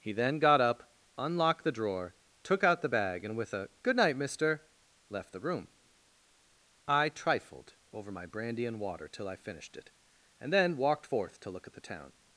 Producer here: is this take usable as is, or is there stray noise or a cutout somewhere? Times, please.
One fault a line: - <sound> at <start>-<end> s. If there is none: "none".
none